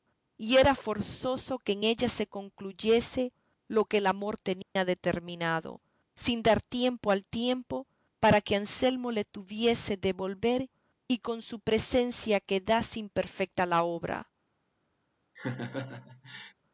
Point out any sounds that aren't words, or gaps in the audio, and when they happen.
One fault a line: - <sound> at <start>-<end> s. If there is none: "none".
- dropout at 4.6-4.8 s
- laugh at 15.4-16.5 s